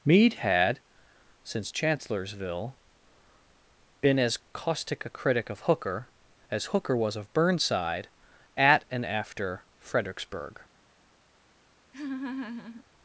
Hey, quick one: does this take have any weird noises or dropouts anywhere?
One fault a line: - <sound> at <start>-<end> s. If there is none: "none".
- laugh at 11.9-12.8 s